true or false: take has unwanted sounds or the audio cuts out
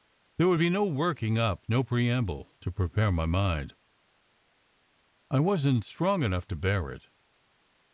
false